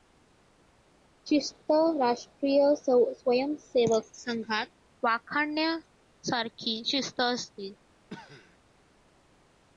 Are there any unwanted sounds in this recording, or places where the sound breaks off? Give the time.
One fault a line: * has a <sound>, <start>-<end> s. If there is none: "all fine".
* has a cough, 8.1-8.6 s